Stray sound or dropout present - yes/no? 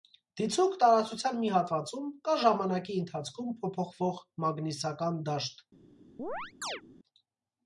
yes